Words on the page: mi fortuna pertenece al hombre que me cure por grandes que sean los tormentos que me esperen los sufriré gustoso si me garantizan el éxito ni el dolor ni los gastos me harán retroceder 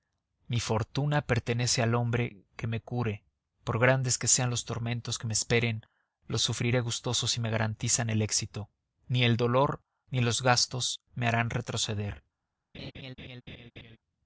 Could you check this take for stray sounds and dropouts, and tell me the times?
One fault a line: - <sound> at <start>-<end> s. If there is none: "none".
- laugh at 12.7-14.0 s